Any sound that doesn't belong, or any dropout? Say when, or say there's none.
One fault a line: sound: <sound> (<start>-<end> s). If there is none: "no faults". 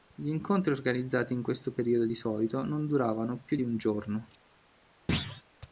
sound: thud (5.1-5.4 s)